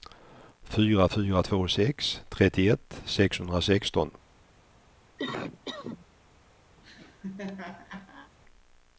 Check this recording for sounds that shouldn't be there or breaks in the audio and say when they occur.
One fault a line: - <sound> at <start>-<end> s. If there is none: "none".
- cough at 5.2-6.1 s
- laugh at 6.8-8.3 s